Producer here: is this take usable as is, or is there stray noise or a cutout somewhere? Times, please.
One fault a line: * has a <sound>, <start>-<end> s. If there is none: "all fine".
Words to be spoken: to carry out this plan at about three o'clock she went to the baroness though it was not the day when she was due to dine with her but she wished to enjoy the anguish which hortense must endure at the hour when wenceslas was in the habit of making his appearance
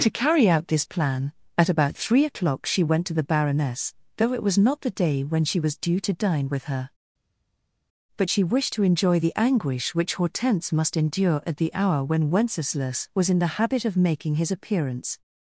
all fine